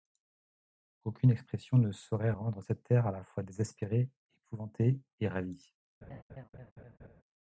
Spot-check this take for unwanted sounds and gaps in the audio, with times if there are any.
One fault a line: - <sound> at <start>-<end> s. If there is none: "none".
- laugh at 6.0-7.2 s